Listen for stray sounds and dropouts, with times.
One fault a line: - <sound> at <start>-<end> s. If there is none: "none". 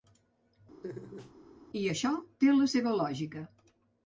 - laugh at 0.8-1.3 s